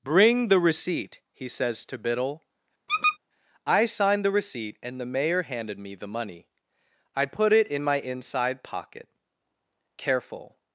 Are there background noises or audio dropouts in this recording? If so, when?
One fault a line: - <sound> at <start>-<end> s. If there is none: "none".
- squeak at 2.9-3.2 s